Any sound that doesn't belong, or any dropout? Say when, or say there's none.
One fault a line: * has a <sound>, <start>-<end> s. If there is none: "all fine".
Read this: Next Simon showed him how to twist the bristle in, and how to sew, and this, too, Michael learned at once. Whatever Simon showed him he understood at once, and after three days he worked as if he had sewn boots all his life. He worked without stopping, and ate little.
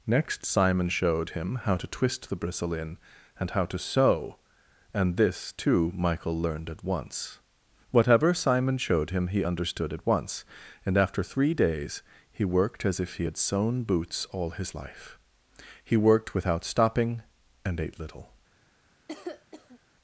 * has a cough, 19.1-19.8 s